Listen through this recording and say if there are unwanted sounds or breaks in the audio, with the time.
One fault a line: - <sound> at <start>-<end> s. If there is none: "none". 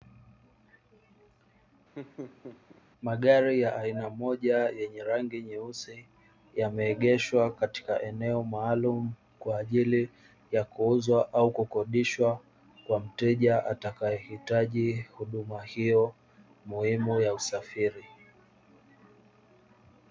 - laugh at 2.0-2.8 s